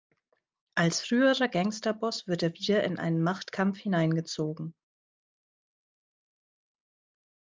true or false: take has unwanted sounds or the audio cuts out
false